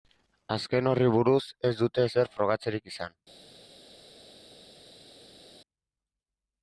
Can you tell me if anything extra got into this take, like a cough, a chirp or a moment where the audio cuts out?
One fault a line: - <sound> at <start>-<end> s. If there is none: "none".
none